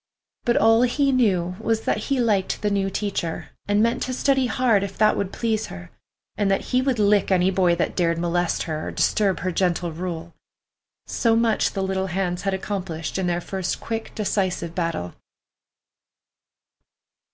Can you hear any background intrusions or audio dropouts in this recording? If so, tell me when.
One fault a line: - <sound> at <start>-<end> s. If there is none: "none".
none